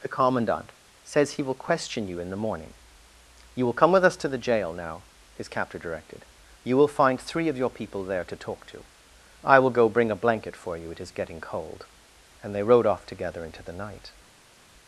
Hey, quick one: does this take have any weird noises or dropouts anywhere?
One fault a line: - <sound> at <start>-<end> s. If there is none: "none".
none